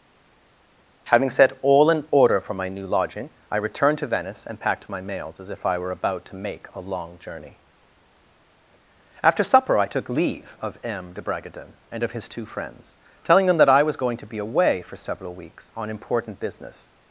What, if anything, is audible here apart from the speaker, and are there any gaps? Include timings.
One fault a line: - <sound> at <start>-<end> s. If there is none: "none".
none